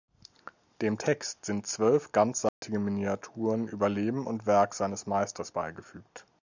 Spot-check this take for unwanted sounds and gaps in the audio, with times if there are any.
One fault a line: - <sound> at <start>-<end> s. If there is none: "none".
- dropout at 2.5-2.6 s